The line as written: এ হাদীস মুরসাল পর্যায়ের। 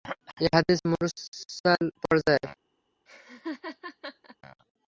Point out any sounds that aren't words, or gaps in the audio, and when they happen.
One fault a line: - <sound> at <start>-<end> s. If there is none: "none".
- laugh at 3.1-4.4 s